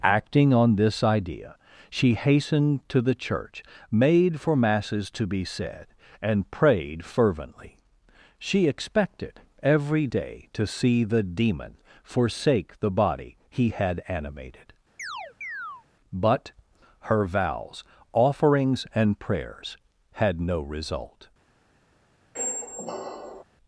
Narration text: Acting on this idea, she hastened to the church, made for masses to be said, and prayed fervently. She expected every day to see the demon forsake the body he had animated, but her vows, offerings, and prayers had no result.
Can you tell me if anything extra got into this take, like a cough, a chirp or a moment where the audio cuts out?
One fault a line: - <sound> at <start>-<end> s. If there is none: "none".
- chirp at 15.0-15.9 s
- squeak at 22.4-23.4 s